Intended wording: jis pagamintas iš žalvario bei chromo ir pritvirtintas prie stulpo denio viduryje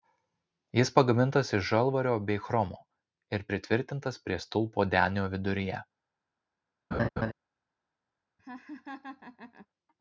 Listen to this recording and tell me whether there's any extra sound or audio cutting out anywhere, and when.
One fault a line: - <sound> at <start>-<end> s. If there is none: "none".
- laugh at 6.9-7.3 s
- laugh at 8.4-9.7 s